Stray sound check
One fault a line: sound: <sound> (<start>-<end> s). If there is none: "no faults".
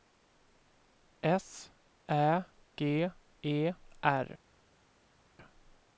no faults